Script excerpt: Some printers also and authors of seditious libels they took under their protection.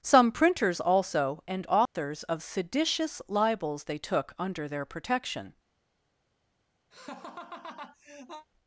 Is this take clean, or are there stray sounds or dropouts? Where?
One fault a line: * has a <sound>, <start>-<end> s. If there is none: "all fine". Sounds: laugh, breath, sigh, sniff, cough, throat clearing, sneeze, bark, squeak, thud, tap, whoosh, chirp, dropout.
* has a dropout, 1.9-2.0 s
* has a laugh, 6.9-8.5 s